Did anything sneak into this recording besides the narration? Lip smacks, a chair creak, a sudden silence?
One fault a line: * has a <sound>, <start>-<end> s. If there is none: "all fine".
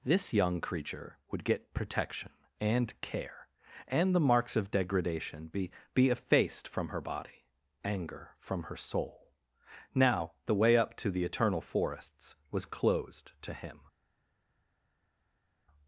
all fine